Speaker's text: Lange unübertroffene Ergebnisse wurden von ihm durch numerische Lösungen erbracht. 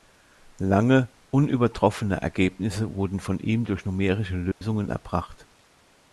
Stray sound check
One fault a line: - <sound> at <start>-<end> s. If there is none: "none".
- dropout at 4.5-4.6 s